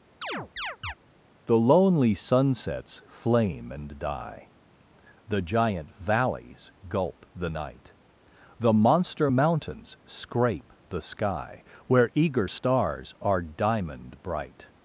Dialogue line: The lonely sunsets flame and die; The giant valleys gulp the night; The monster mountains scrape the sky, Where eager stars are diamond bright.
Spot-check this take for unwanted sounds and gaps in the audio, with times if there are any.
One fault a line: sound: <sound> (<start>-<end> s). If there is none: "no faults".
sound: chirp (0.2-0.9 s)